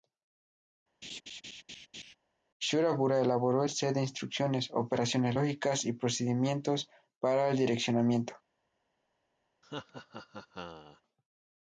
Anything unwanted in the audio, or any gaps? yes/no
yes